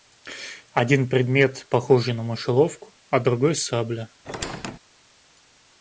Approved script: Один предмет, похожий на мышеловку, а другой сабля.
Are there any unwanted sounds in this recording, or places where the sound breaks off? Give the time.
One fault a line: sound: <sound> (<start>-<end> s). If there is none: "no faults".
sound: squeak (4.2-4.8 s)